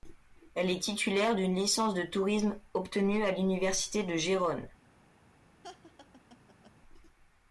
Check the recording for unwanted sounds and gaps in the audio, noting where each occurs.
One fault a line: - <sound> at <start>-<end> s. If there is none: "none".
- laugh at 5.6-6.7 s